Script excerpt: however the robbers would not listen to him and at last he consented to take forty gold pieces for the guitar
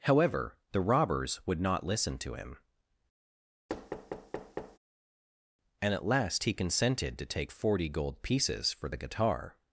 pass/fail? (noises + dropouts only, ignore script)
fail